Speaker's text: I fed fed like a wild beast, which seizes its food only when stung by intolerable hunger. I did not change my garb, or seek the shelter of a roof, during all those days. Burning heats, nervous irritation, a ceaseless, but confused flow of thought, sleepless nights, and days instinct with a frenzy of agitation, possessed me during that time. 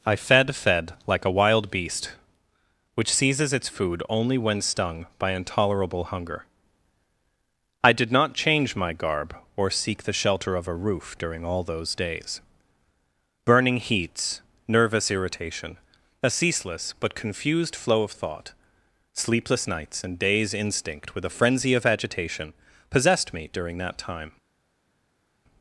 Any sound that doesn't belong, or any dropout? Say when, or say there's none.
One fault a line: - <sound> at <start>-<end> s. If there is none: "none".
none